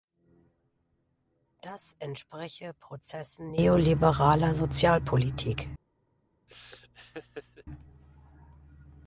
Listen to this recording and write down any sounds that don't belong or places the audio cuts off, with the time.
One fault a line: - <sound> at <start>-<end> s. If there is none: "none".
- laugh at 6.5-7.6 s